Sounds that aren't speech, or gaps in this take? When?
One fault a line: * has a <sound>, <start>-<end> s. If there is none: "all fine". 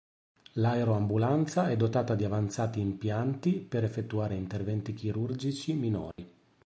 * has a dropout, 6.1-6.2 s